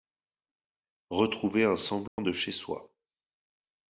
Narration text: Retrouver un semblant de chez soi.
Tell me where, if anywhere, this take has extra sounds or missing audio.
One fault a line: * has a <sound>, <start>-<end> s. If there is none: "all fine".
* has a dropout, 2.1-2.2 s